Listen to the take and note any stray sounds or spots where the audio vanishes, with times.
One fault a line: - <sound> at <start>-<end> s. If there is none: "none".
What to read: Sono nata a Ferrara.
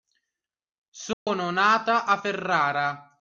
- dropout at 1.1-1.3 s